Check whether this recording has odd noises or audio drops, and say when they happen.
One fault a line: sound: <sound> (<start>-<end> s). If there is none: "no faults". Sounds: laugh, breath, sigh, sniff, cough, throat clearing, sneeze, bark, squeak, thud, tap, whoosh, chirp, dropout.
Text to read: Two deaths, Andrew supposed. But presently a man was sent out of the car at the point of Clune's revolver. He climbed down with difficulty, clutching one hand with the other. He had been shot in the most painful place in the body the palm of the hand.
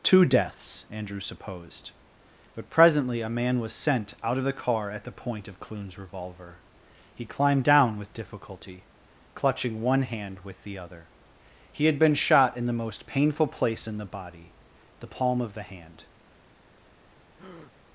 sound: breath (17.3-17.7 s)